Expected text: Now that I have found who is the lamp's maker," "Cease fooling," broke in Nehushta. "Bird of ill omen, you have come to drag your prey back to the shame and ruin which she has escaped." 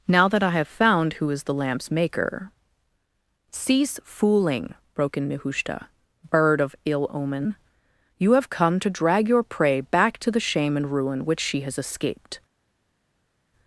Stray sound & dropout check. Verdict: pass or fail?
pass